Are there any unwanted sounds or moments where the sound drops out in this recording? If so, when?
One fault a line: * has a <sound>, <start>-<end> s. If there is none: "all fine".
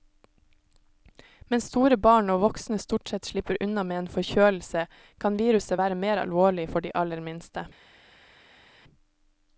all fine